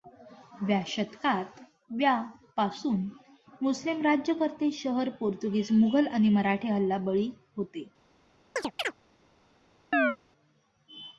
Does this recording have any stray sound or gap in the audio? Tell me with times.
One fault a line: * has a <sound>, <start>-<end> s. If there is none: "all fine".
* has a chirp, 8.6-8.9 s
* has a chirp, 9.9-10.2 s